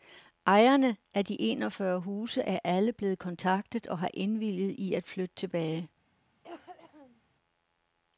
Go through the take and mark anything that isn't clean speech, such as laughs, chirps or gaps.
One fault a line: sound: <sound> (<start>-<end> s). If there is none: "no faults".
sound: cough (6.4-7.2 s)